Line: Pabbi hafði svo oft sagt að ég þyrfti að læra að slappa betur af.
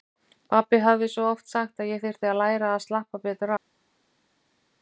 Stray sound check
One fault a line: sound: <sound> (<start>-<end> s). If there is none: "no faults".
no faults